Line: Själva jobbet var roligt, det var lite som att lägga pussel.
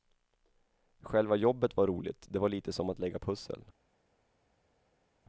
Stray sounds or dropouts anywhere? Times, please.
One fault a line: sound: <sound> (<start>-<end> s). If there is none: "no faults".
no faults